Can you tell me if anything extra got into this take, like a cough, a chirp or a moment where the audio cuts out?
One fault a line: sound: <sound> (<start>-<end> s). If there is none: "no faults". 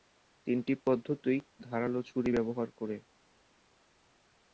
no faults